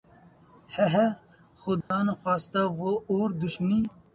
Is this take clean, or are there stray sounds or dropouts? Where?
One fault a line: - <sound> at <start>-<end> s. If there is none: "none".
- dropout at 1.8-1.9 s